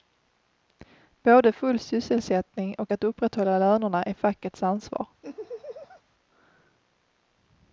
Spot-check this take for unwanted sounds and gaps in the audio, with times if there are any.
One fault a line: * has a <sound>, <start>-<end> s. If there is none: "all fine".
* has a laugh, 5.2-6.0 s